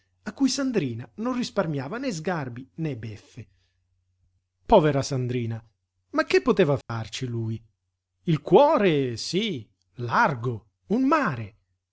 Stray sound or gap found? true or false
true